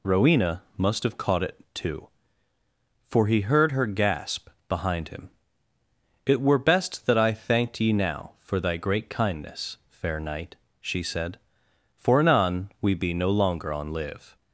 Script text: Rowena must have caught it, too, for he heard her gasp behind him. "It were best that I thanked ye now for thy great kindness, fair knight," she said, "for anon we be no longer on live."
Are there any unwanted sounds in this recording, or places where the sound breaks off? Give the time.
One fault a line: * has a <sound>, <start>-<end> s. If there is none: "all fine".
all fine